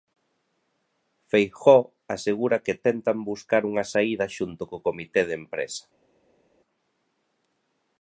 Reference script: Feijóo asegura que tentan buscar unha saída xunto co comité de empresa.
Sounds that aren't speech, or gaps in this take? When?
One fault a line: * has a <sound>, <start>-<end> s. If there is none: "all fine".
all fine